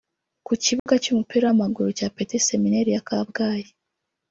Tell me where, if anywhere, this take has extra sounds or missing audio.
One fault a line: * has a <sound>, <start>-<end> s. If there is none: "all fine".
* has a dropout, 0.8-0.9 s